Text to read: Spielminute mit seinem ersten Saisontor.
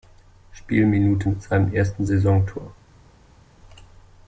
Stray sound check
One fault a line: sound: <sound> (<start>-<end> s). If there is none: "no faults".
no faults